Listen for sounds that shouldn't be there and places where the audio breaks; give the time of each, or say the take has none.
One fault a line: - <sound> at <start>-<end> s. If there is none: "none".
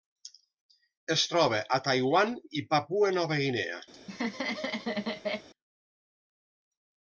- laugh at 3.9-5.5 s